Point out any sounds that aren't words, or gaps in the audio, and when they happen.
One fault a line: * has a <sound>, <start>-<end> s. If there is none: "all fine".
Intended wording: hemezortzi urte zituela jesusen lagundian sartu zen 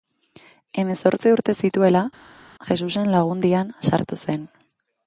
all fine